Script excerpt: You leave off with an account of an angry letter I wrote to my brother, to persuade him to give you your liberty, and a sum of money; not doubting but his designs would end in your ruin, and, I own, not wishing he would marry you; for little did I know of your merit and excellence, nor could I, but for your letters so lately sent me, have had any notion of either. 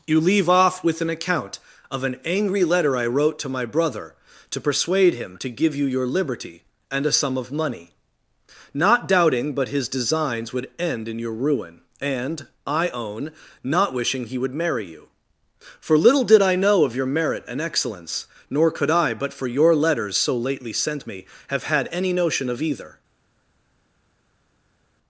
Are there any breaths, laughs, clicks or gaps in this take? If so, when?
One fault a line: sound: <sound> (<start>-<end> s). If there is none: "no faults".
no faults